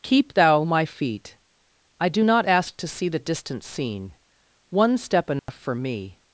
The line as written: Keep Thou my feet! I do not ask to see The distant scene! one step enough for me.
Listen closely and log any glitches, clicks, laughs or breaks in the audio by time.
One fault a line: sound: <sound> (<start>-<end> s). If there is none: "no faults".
sound: dropout (5.4-5.5 s)